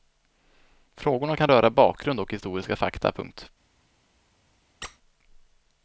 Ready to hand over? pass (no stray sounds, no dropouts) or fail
fail